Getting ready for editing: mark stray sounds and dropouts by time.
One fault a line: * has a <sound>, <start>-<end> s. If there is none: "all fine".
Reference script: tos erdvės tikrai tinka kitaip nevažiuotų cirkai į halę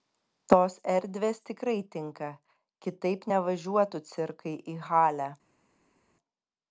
all fine